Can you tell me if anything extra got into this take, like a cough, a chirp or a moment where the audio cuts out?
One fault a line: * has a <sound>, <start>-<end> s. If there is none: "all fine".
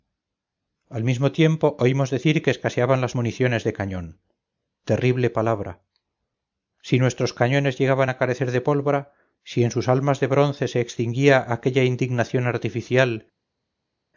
all fine